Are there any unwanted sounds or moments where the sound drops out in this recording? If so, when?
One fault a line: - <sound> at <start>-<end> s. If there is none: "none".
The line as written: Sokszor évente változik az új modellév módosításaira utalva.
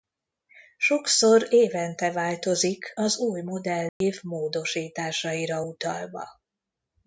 - dropout at 3.9-4.0 s